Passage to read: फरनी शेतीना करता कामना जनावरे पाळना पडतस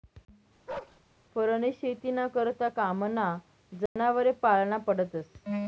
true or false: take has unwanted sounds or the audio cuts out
true